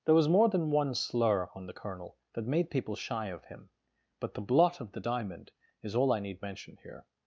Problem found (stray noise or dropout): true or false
false